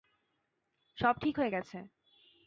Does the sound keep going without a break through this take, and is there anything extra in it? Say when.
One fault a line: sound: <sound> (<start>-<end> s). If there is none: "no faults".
no faults